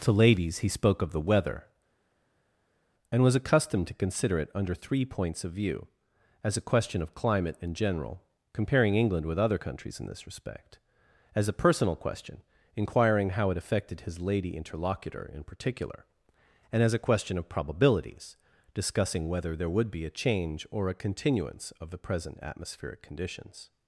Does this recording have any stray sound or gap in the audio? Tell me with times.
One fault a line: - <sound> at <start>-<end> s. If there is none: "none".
none